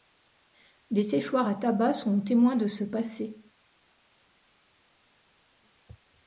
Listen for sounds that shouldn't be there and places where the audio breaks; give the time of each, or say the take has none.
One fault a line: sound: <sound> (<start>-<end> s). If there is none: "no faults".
no faults